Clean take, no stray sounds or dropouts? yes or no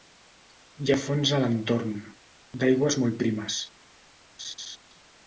no